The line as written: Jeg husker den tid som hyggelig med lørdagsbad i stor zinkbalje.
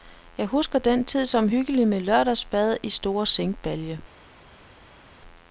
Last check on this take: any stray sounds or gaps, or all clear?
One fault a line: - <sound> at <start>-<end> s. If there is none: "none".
none